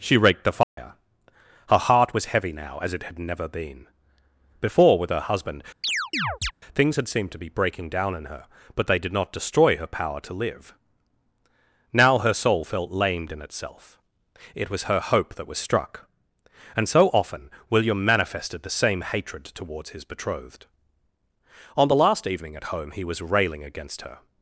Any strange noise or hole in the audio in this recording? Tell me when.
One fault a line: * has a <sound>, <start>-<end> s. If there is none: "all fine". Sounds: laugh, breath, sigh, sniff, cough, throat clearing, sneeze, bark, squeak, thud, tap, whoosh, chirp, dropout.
* has a dropout, 0.6-0.8 s
* has a chirp, 5.8-6.5 s